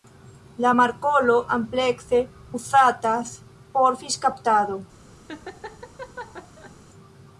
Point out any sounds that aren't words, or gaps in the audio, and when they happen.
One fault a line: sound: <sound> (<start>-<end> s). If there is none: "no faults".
sound: laugh (5.3-6.8 s)